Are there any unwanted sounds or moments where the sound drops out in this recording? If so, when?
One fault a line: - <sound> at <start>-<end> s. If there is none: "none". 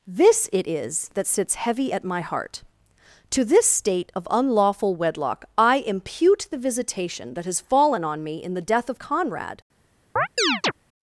- chirp at 10.2-10.7 s